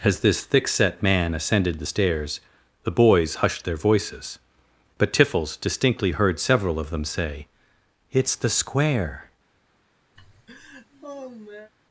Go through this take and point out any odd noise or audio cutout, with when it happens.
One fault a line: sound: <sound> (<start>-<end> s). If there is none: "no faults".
sound: laugh (10.2-11.7 s)